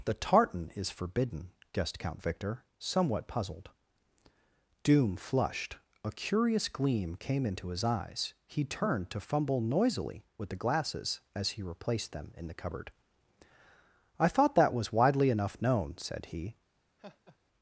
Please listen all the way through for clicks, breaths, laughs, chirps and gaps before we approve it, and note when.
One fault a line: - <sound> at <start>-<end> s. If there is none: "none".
- laugh at 17.0-17.4 s